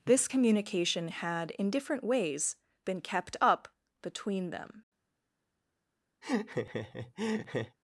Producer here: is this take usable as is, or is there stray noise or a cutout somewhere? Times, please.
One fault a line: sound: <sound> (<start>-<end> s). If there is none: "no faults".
sound: laugh (6.2-7.8 s)